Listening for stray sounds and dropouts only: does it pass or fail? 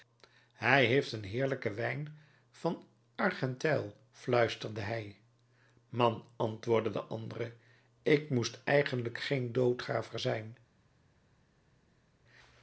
pass